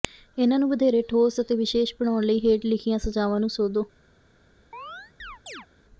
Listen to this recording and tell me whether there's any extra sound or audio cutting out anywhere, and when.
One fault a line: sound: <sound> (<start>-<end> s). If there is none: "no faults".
sound: chirp (4.7-5.7 s)